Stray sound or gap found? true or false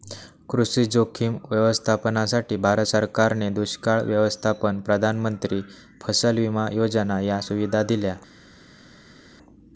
false